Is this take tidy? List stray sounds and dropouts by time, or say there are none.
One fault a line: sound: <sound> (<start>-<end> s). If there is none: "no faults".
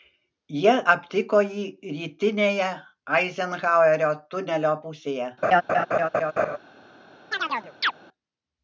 sound: laugh (5.4-6.6 s)
sound: chirp (7.3-7.9 s)